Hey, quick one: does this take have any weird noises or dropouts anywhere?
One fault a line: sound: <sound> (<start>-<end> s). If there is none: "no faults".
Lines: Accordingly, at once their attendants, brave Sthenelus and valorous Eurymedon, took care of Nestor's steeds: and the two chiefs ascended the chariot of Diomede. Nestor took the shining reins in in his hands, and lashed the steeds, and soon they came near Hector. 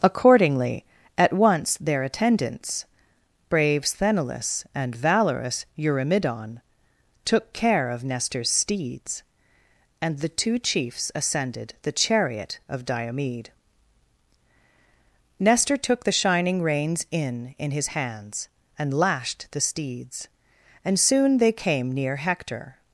no faults